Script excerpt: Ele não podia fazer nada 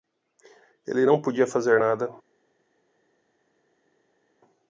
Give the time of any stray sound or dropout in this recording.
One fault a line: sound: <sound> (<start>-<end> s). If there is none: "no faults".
no faults